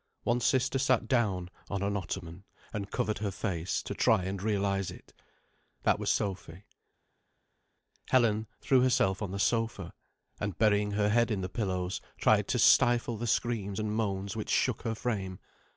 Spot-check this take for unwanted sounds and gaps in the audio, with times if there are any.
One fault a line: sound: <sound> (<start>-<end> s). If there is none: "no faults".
no faults